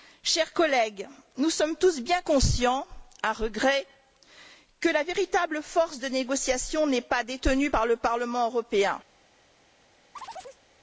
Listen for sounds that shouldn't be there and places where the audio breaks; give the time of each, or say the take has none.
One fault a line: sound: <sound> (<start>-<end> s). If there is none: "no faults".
sound: chirp (10.2-10.6 s)